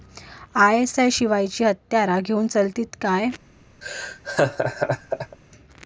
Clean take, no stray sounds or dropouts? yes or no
no